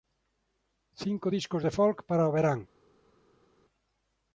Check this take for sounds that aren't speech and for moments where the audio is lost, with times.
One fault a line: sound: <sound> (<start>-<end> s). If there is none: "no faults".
no faults